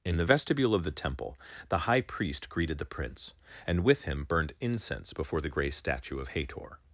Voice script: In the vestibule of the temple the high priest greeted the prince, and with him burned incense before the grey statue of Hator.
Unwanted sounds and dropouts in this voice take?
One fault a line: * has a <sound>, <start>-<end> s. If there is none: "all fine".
all fine